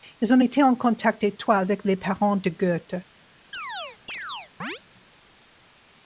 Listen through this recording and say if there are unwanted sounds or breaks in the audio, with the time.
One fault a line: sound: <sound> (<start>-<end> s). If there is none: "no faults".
sound: chirp (3.5-4.8 s)